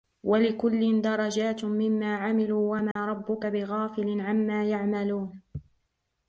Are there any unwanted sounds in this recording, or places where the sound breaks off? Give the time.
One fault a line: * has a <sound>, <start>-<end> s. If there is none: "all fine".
* has a dropout, 2.9-3.0 s